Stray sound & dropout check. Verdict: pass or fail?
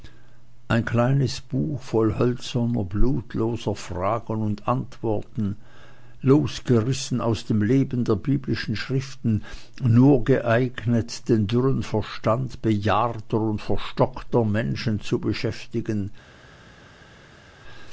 pass